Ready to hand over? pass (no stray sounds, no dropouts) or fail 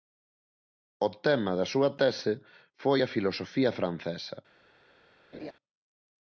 fail